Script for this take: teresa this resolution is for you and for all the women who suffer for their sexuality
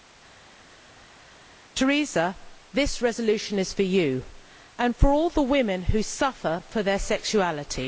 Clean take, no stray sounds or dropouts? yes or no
yes